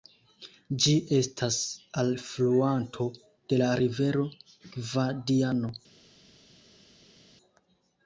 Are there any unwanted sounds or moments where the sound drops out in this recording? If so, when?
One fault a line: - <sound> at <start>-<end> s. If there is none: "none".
none